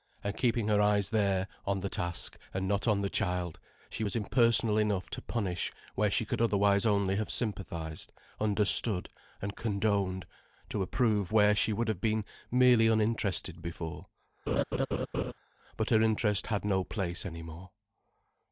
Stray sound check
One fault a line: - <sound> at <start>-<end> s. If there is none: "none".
- laugh at 14.5-15.3 s